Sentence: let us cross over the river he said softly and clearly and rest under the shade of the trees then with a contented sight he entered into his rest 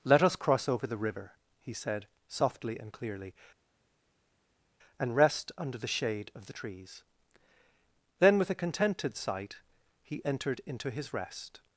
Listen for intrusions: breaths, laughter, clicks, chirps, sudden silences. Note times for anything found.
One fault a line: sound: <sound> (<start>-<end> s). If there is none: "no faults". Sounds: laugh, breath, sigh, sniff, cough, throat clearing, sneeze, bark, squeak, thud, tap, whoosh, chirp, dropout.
no faults